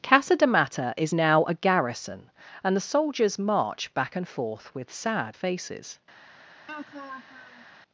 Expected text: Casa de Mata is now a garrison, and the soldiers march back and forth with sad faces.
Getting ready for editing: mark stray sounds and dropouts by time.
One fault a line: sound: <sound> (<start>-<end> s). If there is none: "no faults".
sound: laugh (6.7-7.7 s)